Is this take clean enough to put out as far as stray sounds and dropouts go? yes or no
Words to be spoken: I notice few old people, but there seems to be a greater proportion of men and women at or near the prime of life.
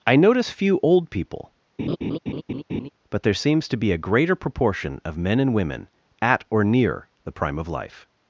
no